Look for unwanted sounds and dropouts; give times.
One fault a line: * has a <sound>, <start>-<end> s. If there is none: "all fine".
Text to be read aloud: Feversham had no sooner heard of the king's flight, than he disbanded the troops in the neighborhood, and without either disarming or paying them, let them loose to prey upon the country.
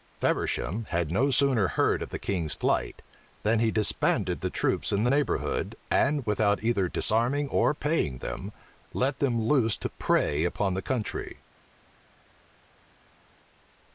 all fine